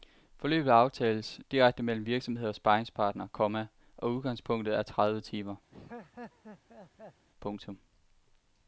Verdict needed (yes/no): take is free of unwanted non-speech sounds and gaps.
no